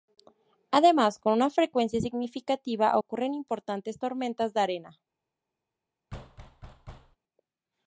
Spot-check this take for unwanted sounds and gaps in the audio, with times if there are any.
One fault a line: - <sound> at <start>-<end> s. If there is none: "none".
- thud at 6.1-7.2 s